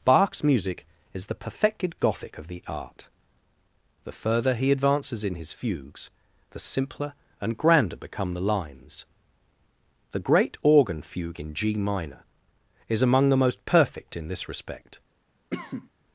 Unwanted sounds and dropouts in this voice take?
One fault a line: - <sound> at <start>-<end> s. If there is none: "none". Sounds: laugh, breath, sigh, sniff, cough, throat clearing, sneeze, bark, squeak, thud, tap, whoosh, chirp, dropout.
- cough at 15.5-15.9 s